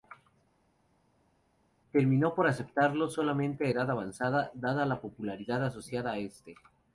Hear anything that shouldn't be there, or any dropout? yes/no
no